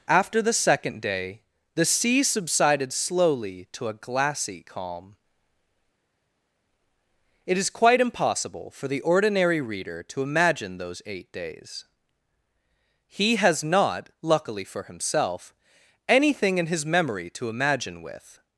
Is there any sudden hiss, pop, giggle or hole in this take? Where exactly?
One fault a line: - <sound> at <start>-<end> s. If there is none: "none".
none